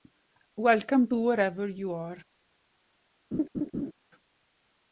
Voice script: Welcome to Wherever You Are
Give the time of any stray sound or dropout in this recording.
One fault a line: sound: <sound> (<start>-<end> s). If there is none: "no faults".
sound: laugh (3.3-3.9 s)